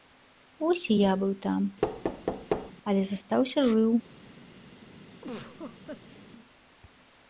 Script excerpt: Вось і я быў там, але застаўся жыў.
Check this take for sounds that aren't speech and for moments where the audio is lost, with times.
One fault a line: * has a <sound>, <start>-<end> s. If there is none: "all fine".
* has a thud, 1.8-2.7 s
* has a laugh, 5.2-6.2 s